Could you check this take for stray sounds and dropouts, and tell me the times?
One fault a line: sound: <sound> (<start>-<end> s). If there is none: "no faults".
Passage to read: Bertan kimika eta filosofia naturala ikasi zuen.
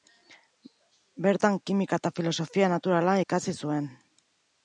no faults